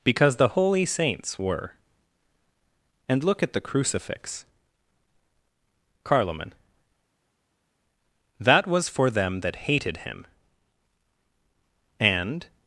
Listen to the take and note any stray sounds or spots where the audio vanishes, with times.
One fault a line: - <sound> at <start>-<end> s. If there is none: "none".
none